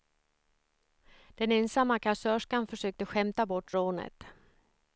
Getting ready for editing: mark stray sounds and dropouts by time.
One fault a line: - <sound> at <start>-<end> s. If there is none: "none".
none